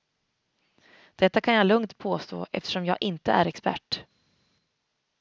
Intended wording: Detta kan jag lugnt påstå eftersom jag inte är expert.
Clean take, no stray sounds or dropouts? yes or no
yes